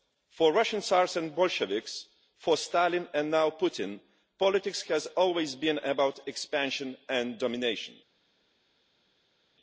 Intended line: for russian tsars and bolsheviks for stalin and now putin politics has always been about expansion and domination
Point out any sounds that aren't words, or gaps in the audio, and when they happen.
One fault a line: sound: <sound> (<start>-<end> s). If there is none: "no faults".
no faults